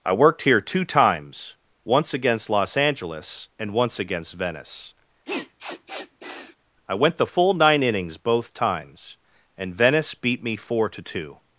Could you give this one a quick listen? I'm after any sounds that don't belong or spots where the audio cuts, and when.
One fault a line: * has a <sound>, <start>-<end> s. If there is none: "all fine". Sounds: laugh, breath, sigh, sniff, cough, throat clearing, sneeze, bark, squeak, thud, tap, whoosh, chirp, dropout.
* has a sniff, 5.2-6.6 s